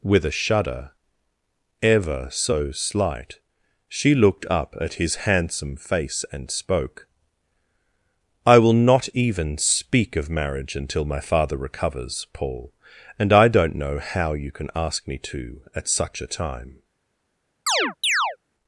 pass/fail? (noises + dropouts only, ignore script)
fail